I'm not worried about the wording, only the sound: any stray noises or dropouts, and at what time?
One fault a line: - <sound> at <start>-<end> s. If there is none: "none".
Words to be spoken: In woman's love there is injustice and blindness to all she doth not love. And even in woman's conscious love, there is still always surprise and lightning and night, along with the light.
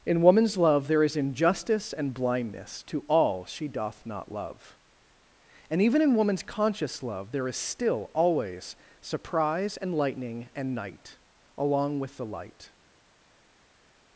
none